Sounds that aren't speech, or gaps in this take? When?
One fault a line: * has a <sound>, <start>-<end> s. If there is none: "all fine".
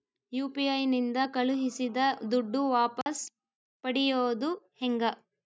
* has a dropout, 3.0-3.1 s